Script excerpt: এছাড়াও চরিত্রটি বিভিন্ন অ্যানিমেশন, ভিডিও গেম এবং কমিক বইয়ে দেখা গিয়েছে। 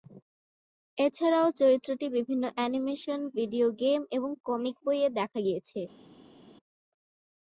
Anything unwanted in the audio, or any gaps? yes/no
no